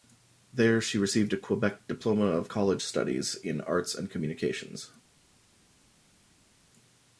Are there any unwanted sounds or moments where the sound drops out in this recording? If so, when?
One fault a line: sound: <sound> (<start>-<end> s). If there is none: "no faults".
no faults